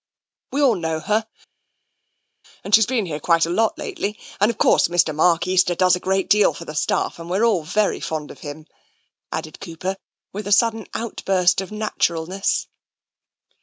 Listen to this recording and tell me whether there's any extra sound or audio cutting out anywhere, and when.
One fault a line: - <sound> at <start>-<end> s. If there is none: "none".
none